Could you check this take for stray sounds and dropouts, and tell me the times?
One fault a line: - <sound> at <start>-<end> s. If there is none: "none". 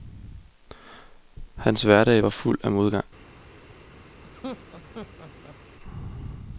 - laugh at 4.2-5.6 s